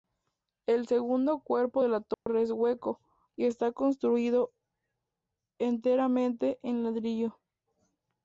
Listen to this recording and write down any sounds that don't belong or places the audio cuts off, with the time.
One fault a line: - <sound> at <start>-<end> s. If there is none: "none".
- dropout at 2.1-2.3 s